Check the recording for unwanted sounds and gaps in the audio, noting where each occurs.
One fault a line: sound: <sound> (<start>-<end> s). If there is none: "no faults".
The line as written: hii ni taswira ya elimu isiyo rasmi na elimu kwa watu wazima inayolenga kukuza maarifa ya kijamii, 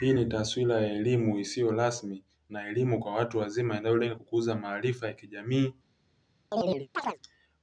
sound: chirp (6.5-7.2 s)